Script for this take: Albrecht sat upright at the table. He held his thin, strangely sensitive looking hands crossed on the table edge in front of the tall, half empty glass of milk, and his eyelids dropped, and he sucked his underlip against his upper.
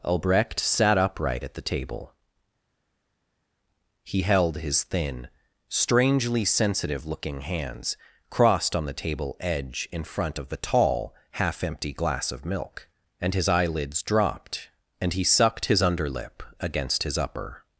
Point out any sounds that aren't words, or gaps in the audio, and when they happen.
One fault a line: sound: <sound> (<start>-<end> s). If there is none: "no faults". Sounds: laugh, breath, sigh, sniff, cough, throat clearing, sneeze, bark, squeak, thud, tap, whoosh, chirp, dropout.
no faults